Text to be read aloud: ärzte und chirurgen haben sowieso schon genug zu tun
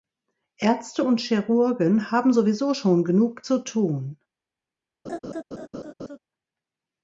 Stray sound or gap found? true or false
true